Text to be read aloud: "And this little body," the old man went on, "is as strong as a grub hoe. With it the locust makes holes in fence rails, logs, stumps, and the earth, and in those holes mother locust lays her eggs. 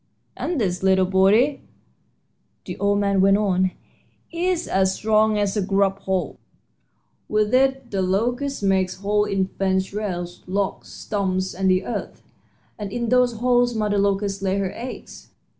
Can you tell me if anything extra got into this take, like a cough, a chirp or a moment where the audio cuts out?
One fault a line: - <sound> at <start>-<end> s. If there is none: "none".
none